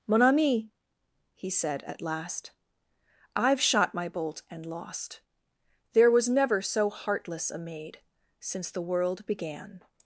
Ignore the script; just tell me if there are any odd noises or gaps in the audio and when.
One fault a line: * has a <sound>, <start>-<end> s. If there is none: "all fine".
all fine